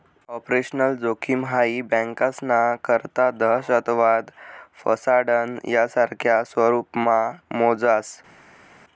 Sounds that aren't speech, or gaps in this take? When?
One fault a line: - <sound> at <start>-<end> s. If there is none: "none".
none